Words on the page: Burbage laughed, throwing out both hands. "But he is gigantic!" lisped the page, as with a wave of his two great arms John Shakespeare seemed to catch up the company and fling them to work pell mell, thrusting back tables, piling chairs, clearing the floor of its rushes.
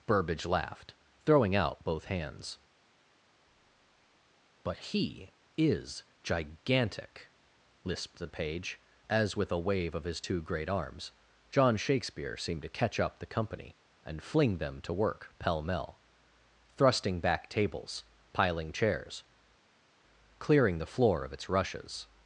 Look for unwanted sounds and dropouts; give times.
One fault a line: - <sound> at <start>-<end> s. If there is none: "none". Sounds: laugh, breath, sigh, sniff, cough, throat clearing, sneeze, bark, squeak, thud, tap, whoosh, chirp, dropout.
none